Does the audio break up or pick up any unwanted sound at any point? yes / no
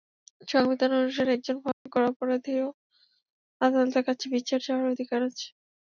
yes